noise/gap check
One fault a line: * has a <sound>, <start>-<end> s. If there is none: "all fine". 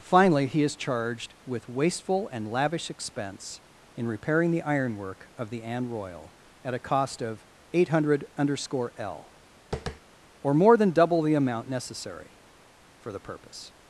* has a tap, 9.7-10.0 s